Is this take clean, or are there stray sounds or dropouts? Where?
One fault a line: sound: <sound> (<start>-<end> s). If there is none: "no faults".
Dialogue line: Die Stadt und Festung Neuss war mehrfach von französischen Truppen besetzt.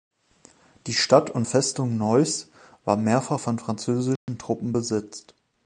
sound: dropout (4.2-4.3 s)